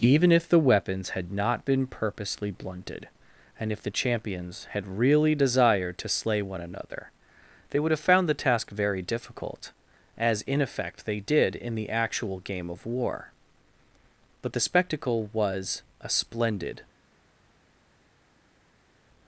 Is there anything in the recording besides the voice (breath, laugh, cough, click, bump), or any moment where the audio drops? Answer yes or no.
no